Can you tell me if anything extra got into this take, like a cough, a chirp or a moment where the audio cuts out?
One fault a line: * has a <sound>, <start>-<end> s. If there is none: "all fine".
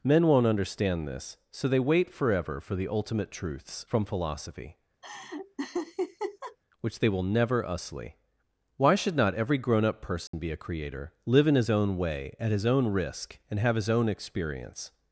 * has a laugh, 5.0-6.6 s
* has a dropout, 10.3-10.3 s